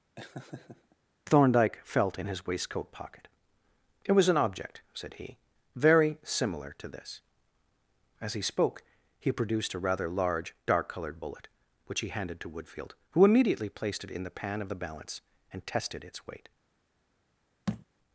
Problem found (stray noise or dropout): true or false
true